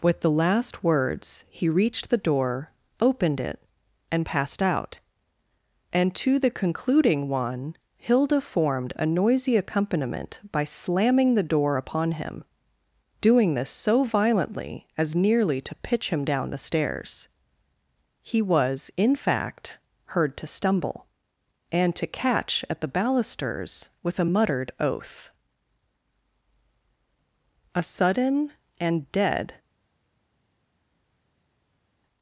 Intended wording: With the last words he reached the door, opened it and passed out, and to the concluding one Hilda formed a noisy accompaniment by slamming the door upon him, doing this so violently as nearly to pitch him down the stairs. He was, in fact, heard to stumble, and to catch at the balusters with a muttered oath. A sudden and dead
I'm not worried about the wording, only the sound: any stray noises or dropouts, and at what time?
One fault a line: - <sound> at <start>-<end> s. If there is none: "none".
none